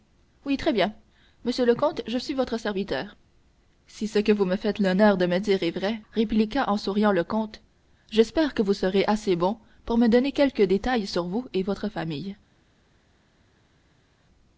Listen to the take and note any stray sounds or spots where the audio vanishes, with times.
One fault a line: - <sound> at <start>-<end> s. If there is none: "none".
none